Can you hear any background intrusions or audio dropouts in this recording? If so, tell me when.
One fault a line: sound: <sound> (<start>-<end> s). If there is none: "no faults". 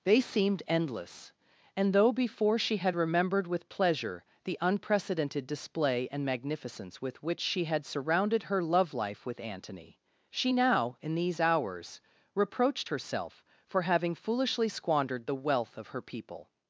no faults